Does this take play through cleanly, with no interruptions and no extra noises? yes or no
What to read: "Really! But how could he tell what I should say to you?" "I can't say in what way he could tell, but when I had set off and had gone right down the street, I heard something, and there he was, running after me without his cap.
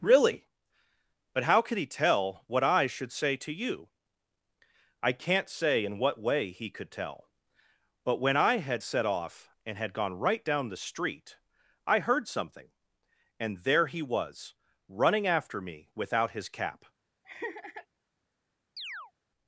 no